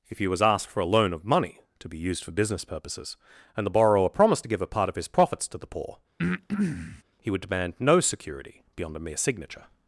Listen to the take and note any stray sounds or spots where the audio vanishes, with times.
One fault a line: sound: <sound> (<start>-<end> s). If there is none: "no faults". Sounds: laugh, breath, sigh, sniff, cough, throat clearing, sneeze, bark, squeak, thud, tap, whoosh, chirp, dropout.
sound: breath (6.2-7.0 s)